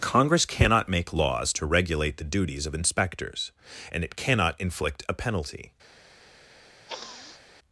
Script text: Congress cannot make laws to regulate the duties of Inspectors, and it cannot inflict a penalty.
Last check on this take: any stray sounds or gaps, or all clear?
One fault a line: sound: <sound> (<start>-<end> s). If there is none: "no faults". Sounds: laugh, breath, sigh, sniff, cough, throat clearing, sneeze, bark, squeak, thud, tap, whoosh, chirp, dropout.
sound: sniff (6.9-7.4 s)